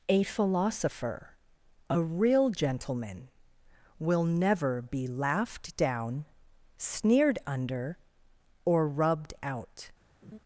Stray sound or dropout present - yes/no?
yes